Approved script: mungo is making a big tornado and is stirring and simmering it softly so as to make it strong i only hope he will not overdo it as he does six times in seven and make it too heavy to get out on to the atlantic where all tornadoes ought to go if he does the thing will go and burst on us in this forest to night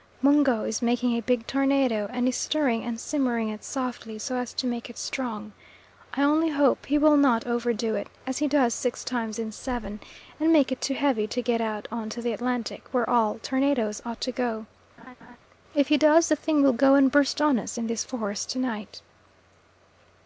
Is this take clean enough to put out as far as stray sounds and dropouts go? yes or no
no